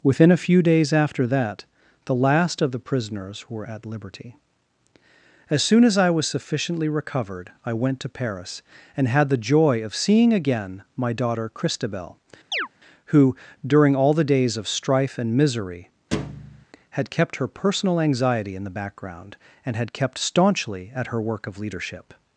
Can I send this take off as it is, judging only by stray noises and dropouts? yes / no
no